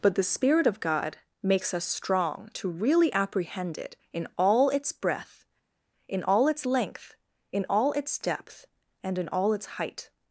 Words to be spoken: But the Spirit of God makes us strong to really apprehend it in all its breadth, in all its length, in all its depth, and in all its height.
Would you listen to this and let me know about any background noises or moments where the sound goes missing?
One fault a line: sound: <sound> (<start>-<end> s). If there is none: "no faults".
no faults